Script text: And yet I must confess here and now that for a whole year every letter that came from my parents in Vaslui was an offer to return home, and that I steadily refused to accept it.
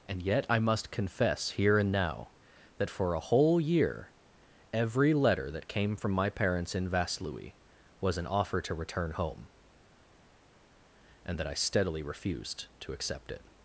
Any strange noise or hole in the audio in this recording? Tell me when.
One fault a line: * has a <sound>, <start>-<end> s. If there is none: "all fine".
all fine